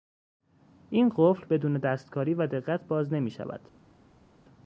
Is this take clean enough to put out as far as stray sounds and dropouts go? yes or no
yes